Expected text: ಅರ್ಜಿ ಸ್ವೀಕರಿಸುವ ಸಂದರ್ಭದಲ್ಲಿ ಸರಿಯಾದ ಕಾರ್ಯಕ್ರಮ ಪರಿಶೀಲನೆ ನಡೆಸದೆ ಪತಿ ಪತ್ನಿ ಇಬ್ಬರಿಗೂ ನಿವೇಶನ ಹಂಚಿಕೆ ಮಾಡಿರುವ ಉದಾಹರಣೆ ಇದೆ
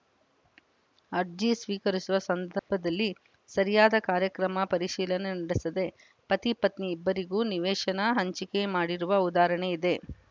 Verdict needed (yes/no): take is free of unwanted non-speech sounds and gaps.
no